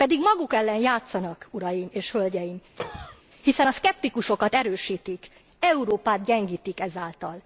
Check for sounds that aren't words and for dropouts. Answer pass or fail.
fail